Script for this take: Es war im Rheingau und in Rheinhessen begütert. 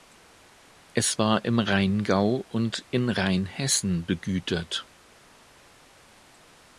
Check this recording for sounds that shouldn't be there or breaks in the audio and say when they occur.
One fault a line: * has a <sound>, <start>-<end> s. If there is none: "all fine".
all fine